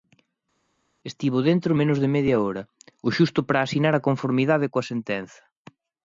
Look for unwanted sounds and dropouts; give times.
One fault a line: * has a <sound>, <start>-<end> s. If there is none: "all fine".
all fine